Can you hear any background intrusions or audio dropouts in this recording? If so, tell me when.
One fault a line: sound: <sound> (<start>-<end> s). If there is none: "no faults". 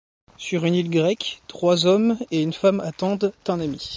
no faults